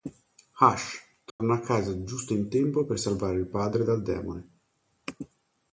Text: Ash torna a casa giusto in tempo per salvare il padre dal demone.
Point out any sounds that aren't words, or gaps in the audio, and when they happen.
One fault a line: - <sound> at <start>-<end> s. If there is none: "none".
- dropout at 1.3-1.4 s